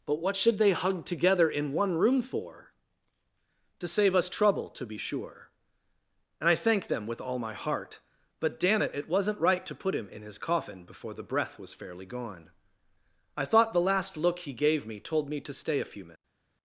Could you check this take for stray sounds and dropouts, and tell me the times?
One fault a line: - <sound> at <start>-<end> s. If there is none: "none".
none